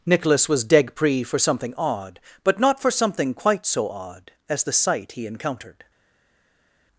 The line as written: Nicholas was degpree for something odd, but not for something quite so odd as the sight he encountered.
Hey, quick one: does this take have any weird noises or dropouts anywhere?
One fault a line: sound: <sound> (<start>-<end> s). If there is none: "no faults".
no faults